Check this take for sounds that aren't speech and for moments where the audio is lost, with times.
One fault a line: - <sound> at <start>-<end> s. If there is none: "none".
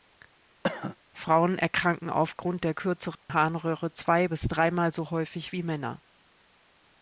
- cough at 0.6-1.0 s
- dropout at 3.2-3.3 s